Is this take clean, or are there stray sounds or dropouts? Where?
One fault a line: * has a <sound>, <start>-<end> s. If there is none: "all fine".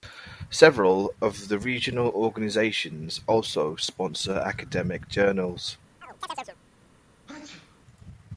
* has a chirp, 6.0-6.6 s
* has a sneeze, 7.3-7.8 s